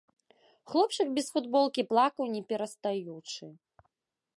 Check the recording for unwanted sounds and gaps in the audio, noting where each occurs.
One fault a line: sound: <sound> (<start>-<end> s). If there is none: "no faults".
no faults